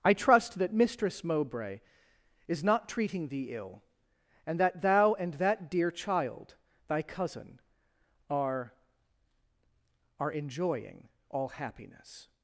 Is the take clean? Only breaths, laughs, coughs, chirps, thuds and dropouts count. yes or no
yes